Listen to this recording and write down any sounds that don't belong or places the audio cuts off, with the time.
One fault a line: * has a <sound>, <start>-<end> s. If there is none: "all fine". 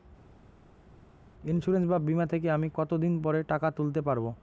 all fine